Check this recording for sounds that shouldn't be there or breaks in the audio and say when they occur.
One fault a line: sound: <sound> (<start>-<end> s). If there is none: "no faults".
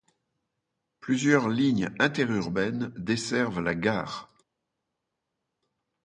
no faults